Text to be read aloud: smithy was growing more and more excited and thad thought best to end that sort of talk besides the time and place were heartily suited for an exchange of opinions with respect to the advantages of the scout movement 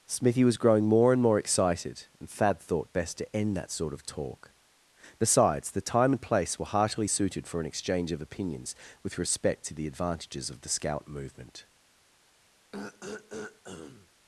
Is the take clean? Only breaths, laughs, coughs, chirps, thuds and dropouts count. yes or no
no